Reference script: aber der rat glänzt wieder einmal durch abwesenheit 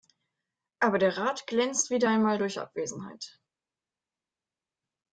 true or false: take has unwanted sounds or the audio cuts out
false